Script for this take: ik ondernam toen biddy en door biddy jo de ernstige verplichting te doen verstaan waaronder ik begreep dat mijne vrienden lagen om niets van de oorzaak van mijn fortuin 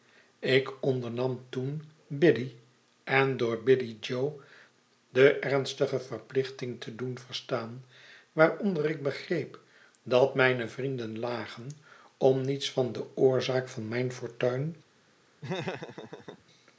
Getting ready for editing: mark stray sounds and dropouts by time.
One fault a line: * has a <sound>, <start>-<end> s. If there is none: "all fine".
* has a laugh, 15.4-16.4 s